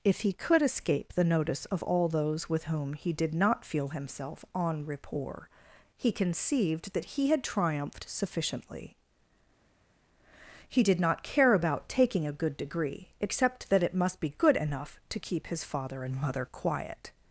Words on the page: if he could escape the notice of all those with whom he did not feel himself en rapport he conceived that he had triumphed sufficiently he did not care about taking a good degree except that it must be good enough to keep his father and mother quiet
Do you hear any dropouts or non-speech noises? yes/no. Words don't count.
no